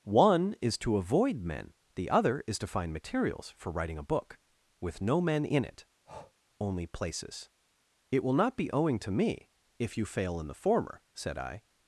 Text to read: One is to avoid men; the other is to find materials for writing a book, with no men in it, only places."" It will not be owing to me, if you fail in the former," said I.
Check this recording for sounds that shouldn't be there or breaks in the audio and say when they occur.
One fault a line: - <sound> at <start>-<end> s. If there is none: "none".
- breath at 6.1-6.3 s